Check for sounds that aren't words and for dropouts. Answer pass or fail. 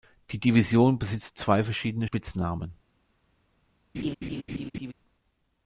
fail